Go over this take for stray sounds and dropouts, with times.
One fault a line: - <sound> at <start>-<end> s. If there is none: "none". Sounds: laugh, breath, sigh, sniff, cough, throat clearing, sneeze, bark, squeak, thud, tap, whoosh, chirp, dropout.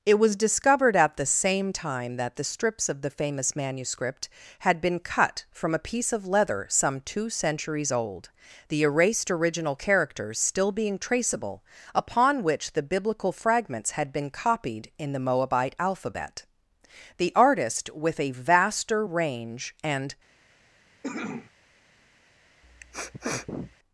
- cough at 21.0-21.5 s
- sniff at 22.6-23.8 s